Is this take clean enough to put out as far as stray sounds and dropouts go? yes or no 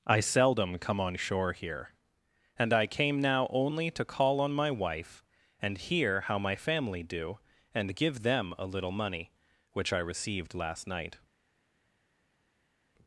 yes